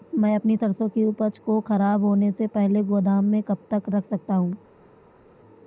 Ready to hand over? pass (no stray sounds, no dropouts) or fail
pass